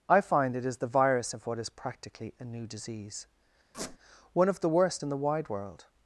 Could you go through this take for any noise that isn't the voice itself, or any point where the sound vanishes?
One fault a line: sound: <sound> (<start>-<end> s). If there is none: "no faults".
sound: squeak (3.7-4.0 s)